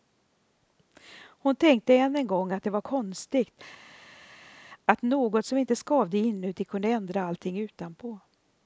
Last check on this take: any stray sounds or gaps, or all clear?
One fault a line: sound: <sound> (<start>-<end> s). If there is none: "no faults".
no faults